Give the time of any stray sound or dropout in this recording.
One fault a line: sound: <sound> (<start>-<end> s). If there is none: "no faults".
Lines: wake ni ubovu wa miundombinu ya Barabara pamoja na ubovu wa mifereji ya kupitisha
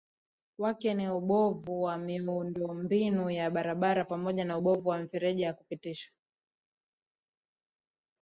no faults